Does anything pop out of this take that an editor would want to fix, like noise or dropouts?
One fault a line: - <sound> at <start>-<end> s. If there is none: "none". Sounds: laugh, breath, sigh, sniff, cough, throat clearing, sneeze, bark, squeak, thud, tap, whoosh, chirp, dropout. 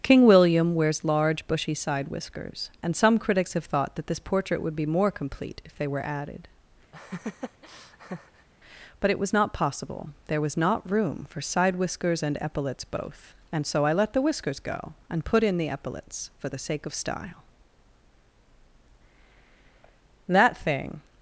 - laugh at 6.9-8.5 s